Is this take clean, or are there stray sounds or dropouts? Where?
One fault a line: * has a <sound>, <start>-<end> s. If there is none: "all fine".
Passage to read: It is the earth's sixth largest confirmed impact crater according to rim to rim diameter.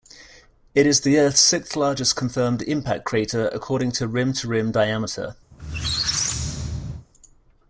* has a squeak, 5.5-7.1 s